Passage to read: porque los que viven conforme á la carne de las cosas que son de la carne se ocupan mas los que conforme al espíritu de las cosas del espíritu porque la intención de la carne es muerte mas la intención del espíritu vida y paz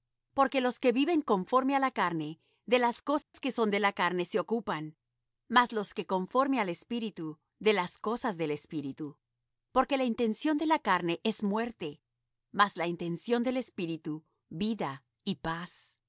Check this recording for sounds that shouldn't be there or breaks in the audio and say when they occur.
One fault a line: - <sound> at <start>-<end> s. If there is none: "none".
- dropout at 3.2-3.3 s